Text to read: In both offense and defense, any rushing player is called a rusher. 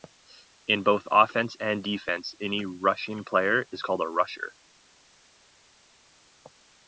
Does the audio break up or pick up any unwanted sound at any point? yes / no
no